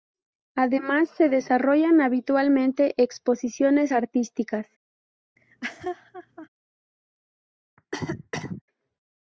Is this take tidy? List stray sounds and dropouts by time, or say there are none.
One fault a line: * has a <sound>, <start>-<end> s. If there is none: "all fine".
* has a laugh, 5.4-6.5 s
* has a cough, 7.8-8.6 s